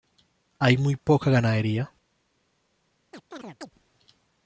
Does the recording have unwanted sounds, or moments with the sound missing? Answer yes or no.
yes